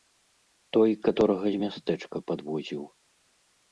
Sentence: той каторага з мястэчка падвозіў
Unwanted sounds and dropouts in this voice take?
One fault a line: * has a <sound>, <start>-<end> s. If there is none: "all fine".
all fine